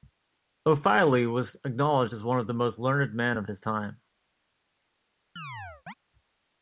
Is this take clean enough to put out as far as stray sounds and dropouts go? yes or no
no